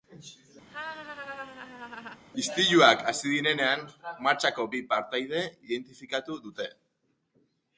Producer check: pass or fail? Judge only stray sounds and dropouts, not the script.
fail